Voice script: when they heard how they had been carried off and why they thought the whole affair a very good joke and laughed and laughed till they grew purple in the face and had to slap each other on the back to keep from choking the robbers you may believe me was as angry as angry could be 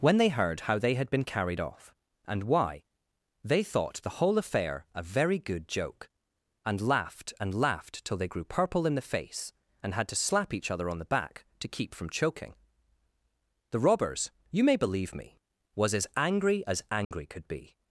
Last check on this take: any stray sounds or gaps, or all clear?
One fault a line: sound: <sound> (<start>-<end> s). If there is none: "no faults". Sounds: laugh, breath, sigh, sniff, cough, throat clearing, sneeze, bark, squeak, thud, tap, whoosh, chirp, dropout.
sound: dropout (17.0-17.1 s)